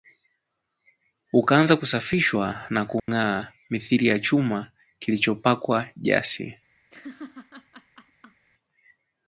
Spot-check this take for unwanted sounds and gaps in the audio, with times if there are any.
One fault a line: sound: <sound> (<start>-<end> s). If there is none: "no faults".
sound: dropout (3.0-3.1 s)
sound: laugh (6.9-8.5 s)